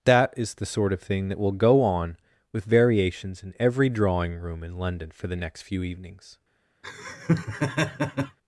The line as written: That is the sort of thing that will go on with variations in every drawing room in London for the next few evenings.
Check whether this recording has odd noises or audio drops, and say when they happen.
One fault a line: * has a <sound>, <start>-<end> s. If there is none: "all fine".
* has a laugh, 6.8-8.4 s